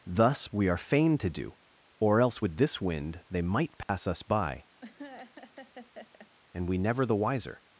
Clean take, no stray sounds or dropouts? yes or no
no